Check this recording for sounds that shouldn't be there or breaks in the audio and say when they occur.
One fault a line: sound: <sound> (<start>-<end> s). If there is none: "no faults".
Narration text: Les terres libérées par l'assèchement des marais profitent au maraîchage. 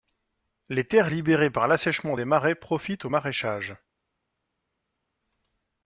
no faults